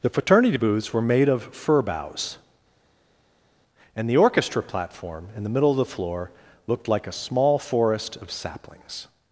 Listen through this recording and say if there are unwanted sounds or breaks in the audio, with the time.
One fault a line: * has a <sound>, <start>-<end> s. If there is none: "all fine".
all fine